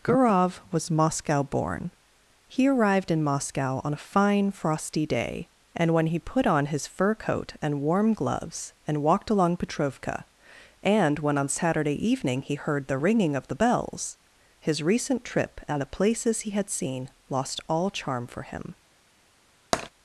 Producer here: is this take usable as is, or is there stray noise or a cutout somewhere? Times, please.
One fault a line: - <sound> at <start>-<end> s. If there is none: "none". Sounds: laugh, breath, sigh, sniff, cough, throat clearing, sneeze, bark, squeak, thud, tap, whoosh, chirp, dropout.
- tap at 19.7-19.9 s